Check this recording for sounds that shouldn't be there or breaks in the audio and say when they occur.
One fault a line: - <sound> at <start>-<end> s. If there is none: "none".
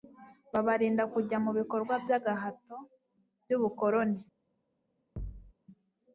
- thud at 5.2-5.5 s